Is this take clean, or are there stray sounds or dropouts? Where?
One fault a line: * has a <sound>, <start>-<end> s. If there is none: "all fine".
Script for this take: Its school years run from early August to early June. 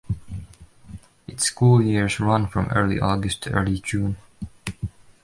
all fine